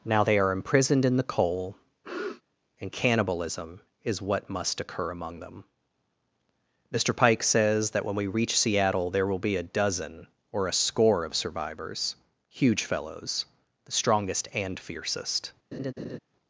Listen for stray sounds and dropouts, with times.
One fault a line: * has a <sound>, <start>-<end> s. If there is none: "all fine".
* has a sniff, 2.0-2.4 s
* has a laugh, 15.7-16.2 s